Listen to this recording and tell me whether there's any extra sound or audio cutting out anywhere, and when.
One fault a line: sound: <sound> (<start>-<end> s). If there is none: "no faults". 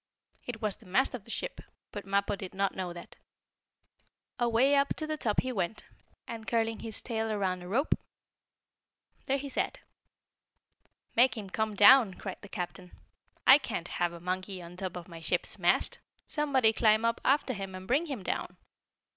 no faults